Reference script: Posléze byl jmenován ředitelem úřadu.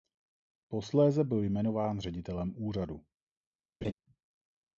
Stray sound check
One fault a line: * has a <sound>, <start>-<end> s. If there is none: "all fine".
* has a laugh, 3.8-3.9 s